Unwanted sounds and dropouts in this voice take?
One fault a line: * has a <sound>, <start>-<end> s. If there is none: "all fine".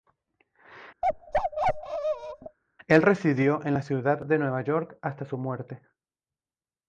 * has a bark, 1.0-2.6 s